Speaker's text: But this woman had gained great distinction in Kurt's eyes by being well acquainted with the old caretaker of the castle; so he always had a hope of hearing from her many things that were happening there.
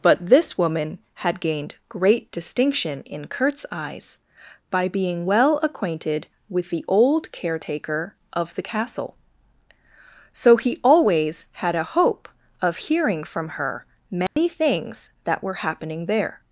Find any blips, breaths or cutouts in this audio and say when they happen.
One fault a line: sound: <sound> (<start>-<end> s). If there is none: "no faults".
sound: dropout (14.3-14.4 s)